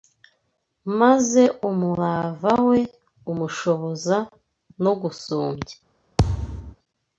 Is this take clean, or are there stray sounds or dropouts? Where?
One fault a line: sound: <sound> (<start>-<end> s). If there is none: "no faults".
sound: thud (6.2-6.8 s)